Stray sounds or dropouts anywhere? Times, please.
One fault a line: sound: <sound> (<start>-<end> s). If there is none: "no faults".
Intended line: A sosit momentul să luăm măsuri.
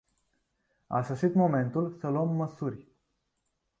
no faults